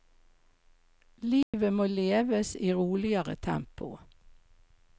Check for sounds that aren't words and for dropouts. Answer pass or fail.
fail